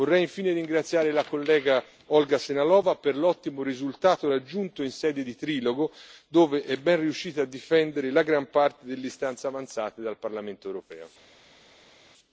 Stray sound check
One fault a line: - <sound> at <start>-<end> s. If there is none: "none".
none